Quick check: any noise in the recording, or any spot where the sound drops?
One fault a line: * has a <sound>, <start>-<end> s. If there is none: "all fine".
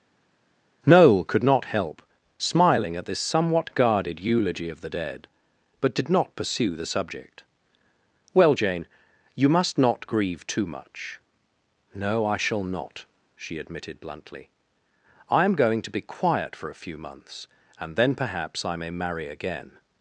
all fine